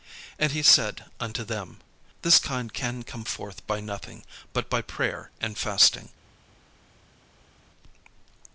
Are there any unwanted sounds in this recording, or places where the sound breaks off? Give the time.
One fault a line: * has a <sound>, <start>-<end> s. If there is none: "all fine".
all fine